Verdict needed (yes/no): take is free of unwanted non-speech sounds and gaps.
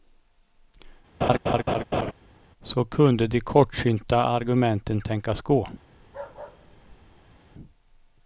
no